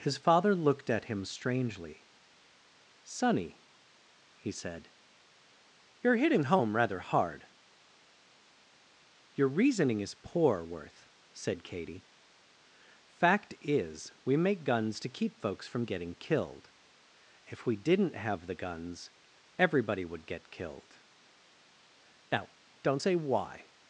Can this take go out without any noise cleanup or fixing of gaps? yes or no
yes